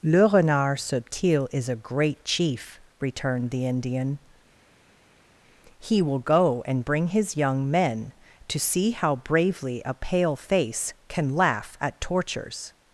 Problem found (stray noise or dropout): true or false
false